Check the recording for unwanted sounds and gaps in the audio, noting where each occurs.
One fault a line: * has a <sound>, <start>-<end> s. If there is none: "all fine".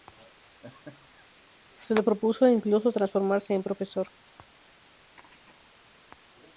* has a laugh, 0.4-1.3 s